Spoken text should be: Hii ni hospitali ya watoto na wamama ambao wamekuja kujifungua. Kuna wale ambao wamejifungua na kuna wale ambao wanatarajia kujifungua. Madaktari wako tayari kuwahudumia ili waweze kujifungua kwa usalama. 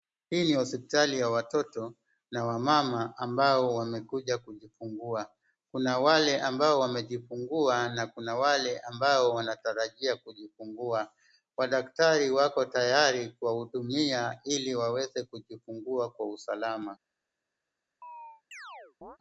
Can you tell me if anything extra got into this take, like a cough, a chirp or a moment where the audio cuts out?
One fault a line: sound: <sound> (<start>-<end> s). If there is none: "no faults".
sound: chirp (18.0-19.2 s)